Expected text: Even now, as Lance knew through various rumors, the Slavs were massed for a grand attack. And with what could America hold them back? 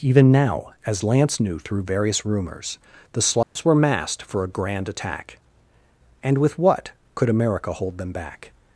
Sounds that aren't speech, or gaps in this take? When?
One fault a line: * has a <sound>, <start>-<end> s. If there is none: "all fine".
* has a dropout, 3.4-3.6 s